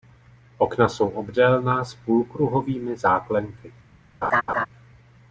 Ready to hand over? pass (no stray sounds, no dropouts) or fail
fail